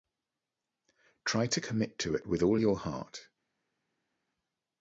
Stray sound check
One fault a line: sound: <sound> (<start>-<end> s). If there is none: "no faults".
no faults